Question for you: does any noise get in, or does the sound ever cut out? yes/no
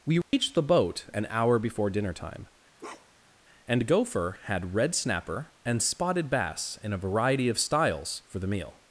yes